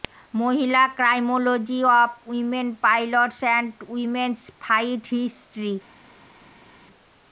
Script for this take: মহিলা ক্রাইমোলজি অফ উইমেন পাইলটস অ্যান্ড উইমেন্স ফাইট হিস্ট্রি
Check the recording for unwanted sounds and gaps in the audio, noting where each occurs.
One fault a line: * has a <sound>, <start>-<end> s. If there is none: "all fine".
all fine